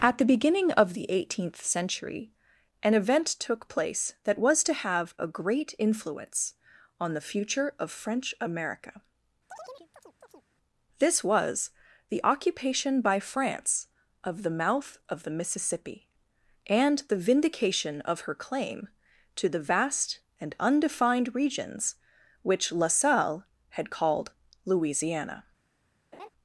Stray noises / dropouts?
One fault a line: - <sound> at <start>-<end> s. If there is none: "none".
- chirp at 9.5-10.5 s
- laugh at 26.1-26.3 s